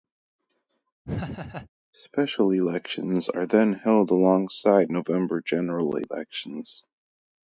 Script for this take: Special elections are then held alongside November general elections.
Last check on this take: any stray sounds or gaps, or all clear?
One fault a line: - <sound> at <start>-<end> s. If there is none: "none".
- laugh at 1.0-1.7 s